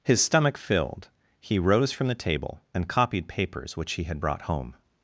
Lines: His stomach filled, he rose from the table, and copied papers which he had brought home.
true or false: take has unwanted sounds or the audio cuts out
false